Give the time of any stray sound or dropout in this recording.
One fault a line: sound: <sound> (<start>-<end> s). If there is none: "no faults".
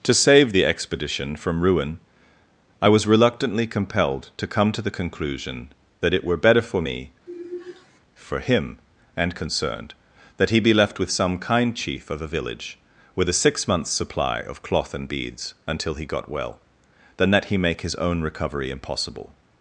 sound: sigh (7.3-8.0 s)